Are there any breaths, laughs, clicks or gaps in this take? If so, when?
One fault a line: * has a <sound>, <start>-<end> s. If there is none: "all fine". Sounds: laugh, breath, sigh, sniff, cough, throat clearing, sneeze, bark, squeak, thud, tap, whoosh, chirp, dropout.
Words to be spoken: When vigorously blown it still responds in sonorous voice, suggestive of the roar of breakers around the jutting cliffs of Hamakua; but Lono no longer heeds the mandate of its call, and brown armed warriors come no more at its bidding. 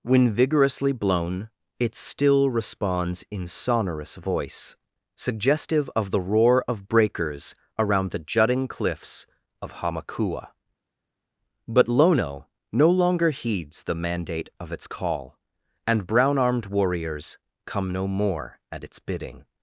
all fine